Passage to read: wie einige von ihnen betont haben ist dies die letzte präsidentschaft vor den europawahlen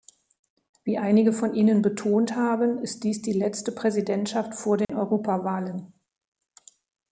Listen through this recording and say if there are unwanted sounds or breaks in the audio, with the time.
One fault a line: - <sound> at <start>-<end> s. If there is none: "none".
- dropout at 4.8-4.9 s